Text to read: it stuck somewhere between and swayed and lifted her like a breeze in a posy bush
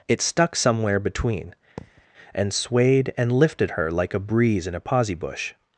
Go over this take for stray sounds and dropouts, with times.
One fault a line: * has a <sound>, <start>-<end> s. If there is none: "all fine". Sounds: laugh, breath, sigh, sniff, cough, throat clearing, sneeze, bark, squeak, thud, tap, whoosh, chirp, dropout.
* has a thud, 1.8-2.1 s